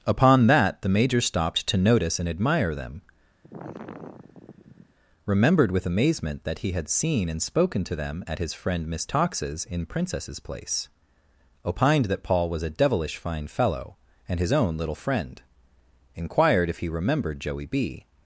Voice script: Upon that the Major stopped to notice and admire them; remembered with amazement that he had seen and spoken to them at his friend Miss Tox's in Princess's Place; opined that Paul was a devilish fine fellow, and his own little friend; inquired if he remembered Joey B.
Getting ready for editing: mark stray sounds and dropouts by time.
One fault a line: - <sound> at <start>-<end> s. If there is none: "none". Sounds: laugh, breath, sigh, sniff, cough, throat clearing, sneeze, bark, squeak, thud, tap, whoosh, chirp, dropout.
- sigh at 3.4-4.9 s